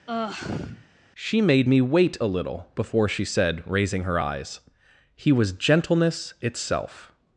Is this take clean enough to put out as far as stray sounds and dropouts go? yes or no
no